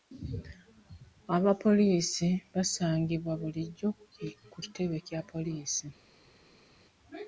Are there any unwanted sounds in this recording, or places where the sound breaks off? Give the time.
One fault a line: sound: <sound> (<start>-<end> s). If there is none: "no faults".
no faults